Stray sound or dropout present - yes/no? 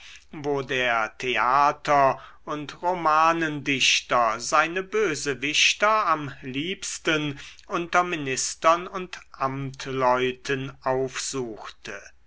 no